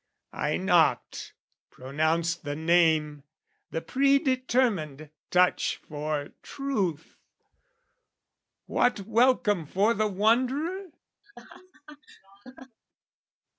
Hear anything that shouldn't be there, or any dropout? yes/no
yes